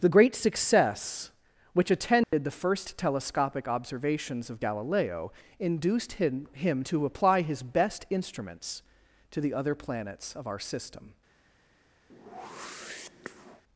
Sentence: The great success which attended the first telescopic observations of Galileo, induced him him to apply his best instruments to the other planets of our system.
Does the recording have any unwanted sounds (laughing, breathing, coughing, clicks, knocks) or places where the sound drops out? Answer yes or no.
yes